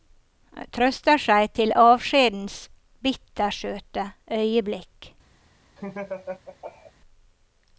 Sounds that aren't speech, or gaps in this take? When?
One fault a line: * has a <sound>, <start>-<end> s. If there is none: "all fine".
* has a laugh, 5.8-6.9 s